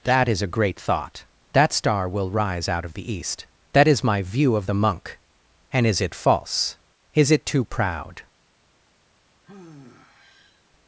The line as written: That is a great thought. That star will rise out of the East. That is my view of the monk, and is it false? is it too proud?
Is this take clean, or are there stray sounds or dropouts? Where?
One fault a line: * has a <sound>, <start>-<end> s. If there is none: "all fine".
* has a sigh, 9.4-10.6 s